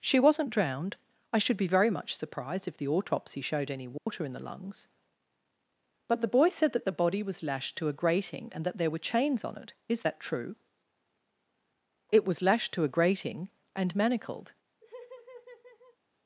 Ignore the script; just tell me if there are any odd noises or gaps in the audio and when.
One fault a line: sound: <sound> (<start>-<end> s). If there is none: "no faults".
sound: dropout (4.0-4.1 s)
sound: laugh (14.8-16.0 s)